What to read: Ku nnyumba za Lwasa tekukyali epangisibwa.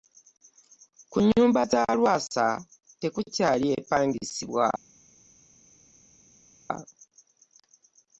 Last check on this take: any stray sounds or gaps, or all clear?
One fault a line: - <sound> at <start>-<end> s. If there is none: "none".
none